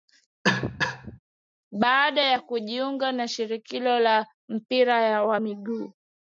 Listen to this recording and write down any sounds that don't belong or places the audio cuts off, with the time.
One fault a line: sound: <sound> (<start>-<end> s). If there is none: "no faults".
sound: cough (0.4-1.2 s)